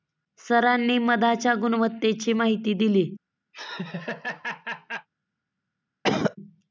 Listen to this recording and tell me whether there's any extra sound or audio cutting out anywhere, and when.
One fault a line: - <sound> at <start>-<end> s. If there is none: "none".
- laugh at 3.5-5.1 s
- cough at 6.0-6.4 s